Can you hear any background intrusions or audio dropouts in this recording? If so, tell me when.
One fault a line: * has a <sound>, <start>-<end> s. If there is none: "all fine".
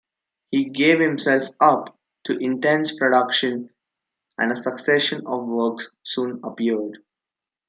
all fine